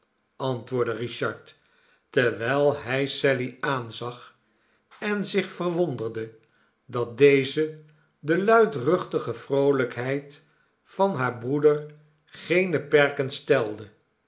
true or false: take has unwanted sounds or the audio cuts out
false